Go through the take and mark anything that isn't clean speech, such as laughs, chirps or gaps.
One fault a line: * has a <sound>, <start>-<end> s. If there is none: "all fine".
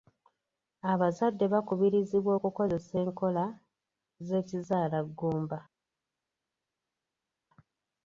all fine